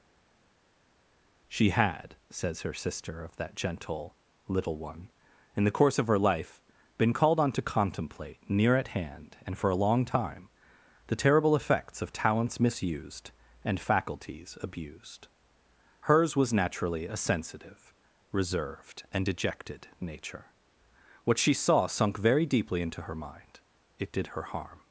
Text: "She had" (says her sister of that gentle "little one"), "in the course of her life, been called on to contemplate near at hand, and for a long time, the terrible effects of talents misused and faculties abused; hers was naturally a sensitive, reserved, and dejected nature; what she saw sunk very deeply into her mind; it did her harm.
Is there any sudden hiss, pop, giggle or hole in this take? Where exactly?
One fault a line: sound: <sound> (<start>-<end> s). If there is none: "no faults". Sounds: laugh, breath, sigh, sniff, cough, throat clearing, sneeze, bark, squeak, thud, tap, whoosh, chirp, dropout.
no faults